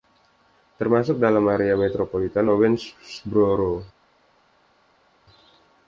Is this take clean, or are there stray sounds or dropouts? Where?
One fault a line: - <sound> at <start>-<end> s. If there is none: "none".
none